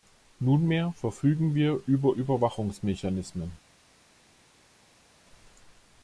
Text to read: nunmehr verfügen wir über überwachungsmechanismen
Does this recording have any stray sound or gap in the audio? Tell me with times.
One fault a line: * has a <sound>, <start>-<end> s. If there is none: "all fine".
all fine